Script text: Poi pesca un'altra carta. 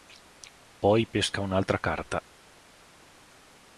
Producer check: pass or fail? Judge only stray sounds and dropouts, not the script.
pass